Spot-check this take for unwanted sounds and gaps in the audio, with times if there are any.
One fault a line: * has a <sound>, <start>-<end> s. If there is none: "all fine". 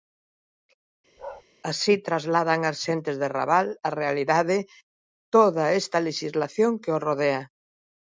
* has a bark, 1.2-1.4 s